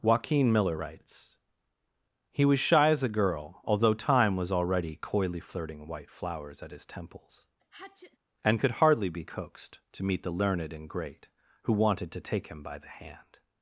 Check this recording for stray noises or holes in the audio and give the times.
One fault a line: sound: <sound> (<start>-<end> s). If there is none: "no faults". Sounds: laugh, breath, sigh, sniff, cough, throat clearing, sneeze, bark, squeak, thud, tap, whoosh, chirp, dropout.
sound: sneeze (7.6-8.2 s)